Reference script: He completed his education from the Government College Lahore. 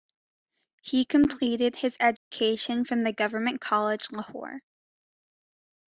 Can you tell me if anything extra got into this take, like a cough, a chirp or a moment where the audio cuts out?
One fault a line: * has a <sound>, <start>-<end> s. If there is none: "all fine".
* has a dropout, 2.2-2.3 s